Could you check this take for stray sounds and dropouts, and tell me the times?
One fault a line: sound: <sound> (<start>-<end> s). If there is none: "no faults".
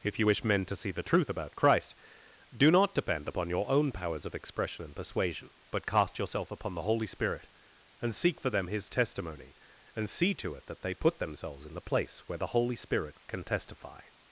no faults